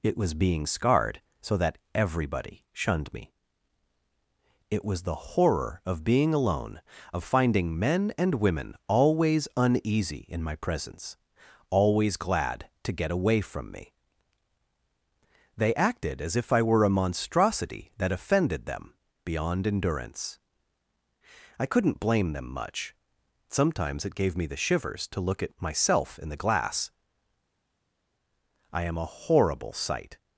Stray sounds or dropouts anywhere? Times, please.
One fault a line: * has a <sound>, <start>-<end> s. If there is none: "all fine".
all fine